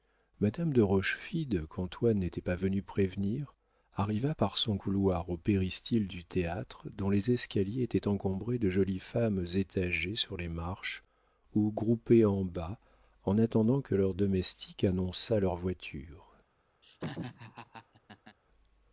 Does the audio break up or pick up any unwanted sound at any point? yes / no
yes